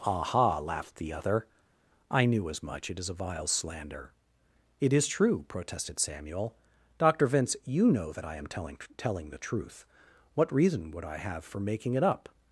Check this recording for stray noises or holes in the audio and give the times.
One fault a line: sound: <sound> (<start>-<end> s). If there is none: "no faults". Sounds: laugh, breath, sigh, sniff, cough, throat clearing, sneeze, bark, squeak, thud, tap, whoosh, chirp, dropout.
no faults